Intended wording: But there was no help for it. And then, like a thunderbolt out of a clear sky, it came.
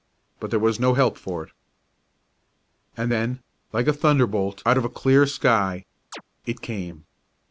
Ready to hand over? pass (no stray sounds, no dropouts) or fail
fail